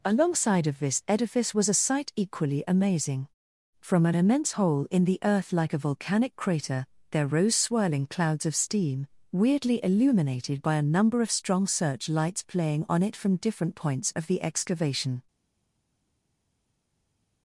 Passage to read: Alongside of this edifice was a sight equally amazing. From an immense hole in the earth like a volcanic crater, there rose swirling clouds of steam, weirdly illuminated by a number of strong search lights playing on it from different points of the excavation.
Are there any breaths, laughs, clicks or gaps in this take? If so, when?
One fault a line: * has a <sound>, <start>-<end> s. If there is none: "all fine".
all fine